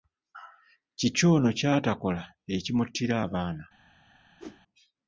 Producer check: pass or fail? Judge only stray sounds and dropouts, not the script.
fail